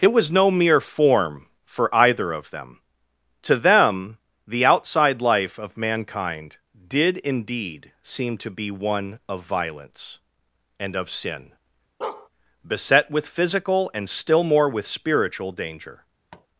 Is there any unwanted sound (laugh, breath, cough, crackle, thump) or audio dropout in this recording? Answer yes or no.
yes